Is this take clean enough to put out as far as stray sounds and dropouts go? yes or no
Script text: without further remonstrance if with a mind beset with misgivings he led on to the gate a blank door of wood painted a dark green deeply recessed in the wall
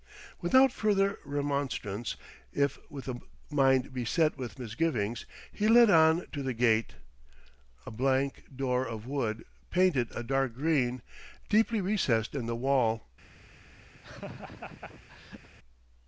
no